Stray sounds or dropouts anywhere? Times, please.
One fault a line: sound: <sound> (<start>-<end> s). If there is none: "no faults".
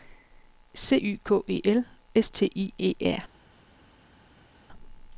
no faults